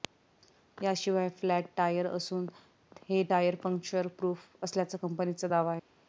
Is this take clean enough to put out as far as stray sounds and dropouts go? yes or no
yes